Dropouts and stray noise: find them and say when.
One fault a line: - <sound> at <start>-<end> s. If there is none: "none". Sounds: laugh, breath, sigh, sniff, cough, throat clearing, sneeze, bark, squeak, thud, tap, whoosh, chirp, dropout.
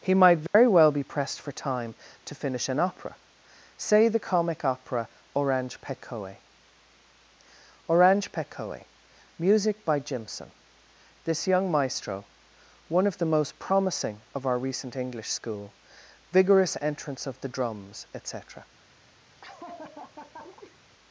- dropout at 0.5-0.5 s
- laugh at 19.4-20.8 s